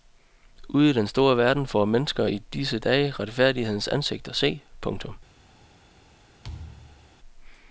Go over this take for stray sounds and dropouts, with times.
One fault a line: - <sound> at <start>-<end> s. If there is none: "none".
- thud at 6.4-7.1 s